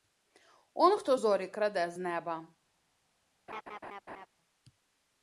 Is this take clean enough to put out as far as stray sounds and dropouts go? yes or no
no